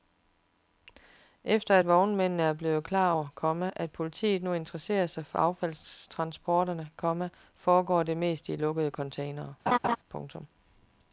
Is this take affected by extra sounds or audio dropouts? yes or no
yes